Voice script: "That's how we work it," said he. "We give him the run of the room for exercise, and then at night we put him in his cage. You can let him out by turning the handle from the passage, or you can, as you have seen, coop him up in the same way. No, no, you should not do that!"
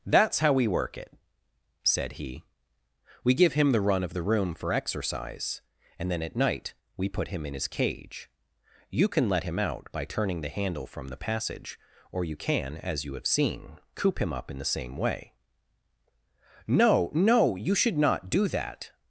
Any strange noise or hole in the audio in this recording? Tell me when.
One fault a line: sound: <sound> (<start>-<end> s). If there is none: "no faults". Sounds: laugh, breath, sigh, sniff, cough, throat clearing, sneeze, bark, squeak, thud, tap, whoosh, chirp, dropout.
no faults